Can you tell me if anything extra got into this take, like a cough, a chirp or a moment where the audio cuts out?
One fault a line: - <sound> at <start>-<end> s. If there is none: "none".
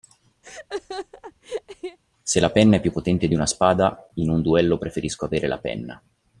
- laugh at 0.4-2.0 s